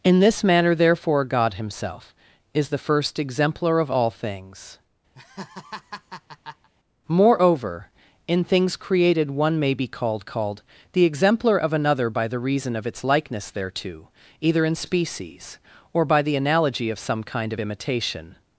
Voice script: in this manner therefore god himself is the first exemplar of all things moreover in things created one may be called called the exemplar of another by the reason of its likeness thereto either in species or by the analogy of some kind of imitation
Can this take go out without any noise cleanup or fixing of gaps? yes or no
no